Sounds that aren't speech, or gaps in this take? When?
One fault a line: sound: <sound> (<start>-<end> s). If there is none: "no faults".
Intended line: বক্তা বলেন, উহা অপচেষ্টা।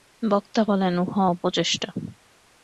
no faults